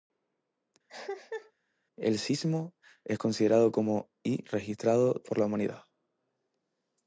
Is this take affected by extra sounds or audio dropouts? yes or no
yes